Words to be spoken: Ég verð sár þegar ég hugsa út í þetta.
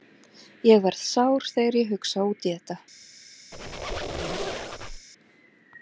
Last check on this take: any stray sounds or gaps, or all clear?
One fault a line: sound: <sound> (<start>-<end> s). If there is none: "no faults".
sound: squeak (3.5-5.1 s)